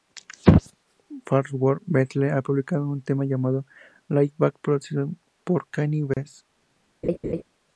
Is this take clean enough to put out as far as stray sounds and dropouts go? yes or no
no